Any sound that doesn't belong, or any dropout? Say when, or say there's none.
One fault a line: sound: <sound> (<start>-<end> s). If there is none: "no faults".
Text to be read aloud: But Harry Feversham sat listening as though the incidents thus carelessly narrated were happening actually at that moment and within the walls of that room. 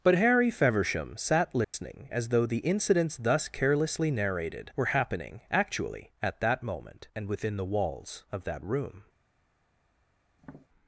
sound: dropout (1.6-1.7 s)
sound: tap (10.4-10.7 s)